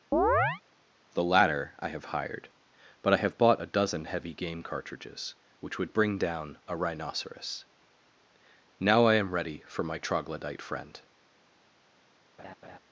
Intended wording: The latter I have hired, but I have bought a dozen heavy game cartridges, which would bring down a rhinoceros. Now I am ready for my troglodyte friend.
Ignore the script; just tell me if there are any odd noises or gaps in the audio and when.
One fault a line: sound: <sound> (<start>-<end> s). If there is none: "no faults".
sound: chirp (0.1-0.6 s)
sound: laugh (12.4-12.8 s)